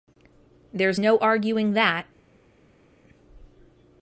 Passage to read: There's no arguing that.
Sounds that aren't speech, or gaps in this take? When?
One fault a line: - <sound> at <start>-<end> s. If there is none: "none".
none